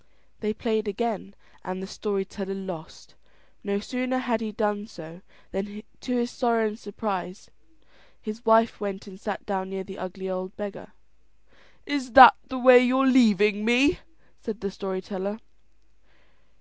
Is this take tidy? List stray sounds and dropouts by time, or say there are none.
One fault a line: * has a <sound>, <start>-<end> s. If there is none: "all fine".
all fine